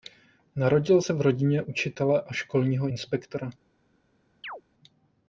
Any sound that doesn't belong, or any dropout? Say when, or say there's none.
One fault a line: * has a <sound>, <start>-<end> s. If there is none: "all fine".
* has a chirp, 4.4-4.6 s